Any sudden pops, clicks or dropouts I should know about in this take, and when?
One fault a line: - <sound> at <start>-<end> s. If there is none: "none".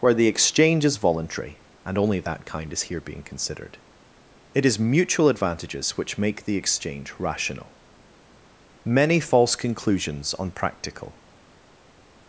none